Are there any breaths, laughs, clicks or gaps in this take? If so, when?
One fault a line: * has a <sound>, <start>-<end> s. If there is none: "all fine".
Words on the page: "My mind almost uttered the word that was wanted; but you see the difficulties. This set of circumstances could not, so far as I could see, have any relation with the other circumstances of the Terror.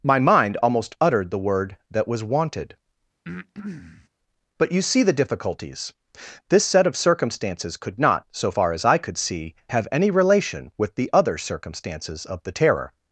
* has a breath, 3.2-4.1 s